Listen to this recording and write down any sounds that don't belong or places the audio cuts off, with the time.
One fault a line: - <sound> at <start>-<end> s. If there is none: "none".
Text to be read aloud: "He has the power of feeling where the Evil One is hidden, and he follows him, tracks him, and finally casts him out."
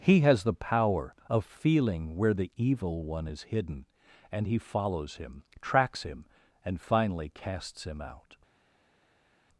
none